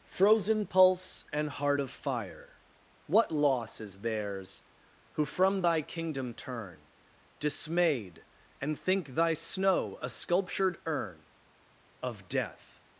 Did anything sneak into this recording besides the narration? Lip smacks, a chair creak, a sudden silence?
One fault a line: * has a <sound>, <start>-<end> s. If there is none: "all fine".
all fine